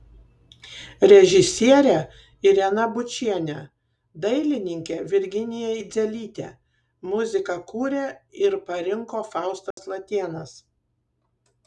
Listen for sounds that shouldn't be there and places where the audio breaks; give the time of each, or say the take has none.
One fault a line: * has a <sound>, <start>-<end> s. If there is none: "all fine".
* has a dropout, 9.7-9.8 s